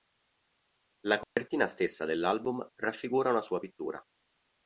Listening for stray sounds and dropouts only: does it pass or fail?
fail